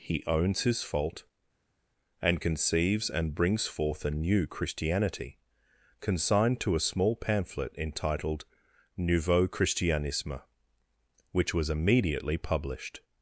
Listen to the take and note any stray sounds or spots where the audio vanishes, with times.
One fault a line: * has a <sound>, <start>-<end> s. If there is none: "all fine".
all fine